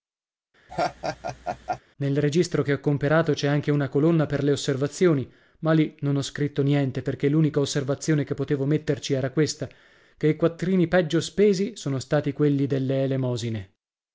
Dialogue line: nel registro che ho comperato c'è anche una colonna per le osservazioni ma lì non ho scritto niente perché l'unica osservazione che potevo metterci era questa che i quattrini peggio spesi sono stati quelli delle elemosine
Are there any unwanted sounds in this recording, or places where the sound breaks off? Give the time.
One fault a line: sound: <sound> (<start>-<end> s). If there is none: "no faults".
sound: laugh (0.7-1.8 s)